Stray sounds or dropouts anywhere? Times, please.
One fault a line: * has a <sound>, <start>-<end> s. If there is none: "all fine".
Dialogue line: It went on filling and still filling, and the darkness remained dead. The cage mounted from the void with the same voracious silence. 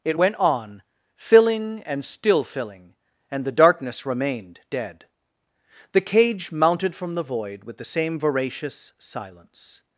all fine